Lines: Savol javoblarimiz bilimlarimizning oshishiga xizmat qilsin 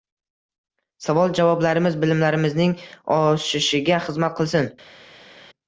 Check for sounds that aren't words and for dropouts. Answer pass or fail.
pass